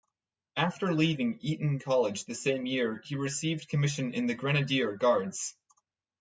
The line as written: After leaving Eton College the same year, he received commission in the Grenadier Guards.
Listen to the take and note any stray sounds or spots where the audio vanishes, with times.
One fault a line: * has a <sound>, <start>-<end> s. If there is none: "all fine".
all fine